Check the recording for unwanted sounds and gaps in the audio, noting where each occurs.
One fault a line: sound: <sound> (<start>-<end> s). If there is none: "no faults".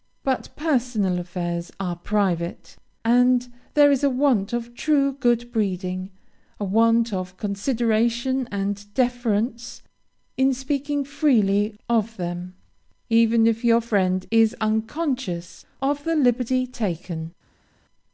no faults